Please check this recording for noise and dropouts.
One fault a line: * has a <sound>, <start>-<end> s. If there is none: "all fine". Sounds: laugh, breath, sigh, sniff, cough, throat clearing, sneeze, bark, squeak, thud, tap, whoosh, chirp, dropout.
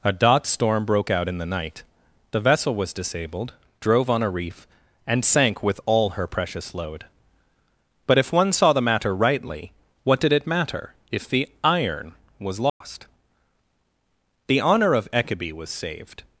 * has a dropout, 12.7-12.8 s